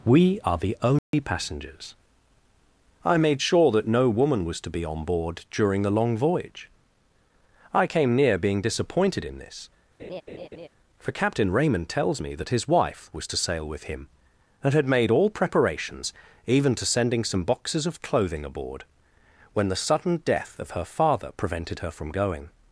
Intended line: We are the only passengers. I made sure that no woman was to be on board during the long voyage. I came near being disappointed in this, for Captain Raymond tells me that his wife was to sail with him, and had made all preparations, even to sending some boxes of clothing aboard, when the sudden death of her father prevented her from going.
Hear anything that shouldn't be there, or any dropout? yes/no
yes